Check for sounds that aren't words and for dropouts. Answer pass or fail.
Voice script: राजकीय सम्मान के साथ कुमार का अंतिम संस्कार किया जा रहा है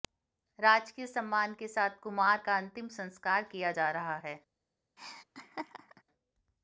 fail